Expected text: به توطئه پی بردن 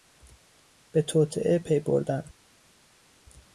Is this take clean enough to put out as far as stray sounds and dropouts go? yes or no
yes